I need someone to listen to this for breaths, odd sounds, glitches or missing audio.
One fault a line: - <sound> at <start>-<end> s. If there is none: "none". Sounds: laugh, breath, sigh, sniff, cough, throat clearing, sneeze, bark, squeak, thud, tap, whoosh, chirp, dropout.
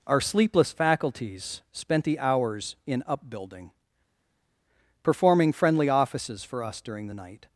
none